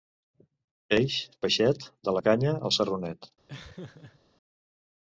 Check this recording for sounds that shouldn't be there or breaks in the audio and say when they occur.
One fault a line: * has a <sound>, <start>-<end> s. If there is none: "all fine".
* has a laugh, 3.5-4.2 s